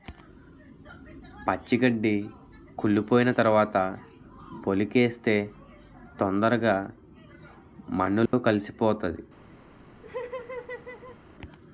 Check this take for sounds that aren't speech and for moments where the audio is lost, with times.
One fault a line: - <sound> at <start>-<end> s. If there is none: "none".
- dropout at 8.3-8.3 s
- laugh at 10.0-11.2 s